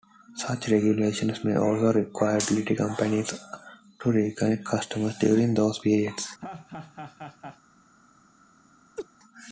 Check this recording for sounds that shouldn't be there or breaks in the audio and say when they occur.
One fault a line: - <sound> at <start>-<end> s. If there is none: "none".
- laugh at 6.4-7.6 s
- laugh at 9.0-9.1 s